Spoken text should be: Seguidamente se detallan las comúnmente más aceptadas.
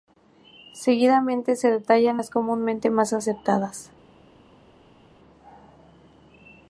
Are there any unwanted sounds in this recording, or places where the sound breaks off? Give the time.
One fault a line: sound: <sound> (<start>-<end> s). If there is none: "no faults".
no faults